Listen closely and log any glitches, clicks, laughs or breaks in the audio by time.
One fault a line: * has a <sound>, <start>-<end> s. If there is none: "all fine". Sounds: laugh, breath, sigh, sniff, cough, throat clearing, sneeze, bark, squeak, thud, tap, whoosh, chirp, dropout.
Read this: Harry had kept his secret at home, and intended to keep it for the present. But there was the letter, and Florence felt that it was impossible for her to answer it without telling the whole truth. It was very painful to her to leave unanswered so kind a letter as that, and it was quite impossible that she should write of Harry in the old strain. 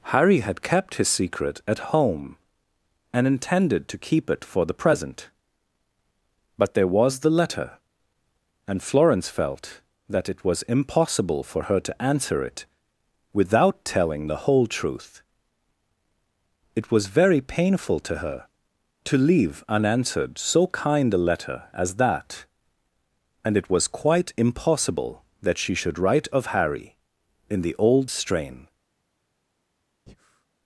* has a breath, 30.1-30.5 s